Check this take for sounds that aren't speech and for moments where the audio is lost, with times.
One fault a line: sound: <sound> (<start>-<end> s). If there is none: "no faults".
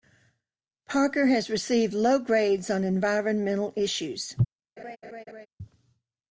sound: laugh (4.8-5.5 s)